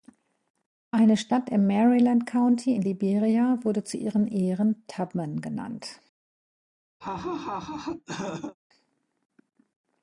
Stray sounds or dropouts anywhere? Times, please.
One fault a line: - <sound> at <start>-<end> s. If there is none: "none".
- laugh at 7.0-8.6 s